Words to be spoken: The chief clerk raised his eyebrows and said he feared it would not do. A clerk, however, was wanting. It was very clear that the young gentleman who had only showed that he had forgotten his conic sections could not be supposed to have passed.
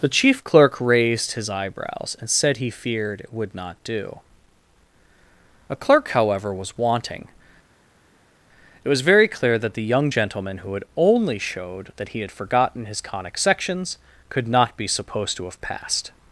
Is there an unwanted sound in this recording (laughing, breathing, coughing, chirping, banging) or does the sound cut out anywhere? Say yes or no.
no